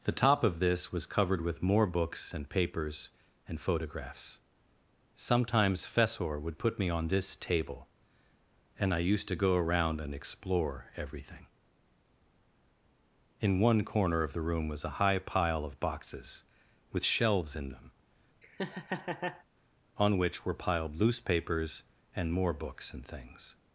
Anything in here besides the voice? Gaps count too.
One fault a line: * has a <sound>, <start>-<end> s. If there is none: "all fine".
* has a laugh, 18.4-19.4 s